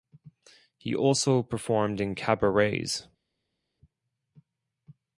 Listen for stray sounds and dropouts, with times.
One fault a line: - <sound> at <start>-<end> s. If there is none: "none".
none